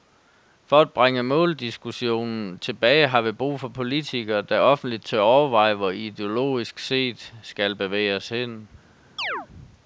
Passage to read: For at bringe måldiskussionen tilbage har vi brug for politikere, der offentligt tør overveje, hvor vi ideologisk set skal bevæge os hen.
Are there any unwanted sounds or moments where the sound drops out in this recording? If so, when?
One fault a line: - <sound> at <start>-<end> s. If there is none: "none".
- chirp at 9.2-9.5 s